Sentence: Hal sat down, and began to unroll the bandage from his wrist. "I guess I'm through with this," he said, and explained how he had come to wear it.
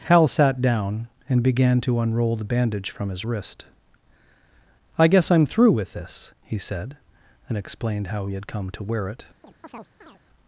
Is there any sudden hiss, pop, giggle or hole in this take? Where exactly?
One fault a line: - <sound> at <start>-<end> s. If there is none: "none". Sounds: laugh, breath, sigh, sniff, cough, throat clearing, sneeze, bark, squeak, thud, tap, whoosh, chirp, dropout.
- chirp at 9.4-10.2 s